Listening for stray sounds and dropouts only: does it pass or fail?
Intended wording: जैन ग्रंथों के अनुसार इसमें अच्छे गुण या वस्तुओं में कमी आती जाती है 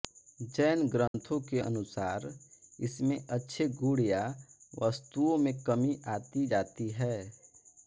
fail